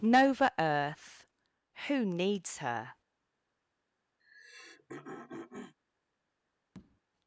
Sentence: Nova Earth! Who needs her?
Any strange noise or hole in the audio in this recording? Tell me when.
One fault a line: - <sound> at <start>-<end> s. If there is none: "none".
- throat clearing at 4.2-5.7 s
- tap at 6.7-7.0 s